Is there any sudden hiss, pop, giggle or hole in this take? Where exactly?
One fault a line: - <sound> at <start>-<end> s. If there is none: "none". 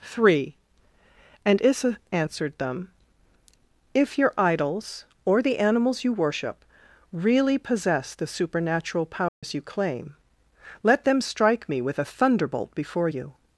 - dropout at 9.3-9.4 s